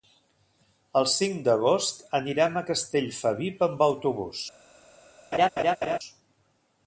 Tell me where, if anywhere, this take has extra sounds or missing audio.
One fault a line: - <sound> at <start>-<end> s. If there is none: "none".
- laugh at 5.3-6.0 s